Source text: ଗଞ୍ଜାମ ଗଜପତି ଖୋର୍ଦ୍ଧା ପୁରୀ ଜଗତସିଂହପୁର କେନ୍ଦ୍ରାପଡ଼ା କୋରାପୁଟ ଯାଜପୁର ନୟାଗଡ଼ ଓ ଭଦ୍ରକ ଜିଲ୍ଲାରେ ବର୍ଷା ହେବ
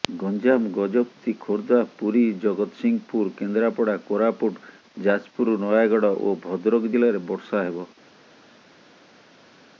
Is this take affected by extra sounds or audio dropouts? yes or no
no